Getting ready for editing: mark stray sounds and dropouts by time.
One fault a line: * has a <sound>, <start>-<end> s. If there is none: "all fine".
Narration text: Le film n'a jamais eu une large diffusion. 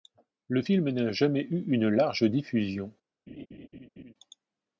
* has a laugh, 3.3-4.1 s